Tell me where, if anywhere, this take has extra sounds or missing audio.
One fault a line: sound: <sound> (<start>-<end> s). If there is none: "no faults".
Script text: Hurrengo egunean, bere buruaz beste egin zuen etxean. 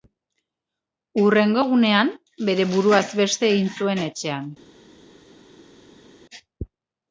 no faults